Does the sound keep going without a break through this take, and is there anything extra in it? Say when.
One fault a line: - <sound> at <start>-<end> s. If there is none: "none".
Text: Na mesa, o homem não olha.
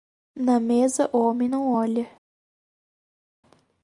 none